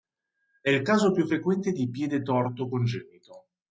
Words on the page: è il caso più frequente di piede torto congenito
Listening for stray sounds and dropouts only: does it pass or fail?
pass